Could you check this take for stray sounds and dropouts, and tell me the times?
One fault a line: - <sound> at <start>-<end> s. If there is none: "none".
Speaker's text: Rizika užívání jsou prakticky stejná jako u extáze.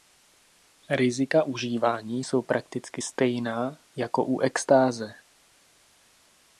none